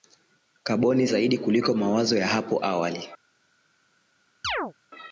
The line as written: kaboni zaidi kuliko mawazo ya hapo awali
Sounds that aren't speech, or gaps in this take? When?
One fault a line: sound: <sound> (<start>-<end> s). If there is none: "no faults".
sound: chirp (4.4-4.7 s)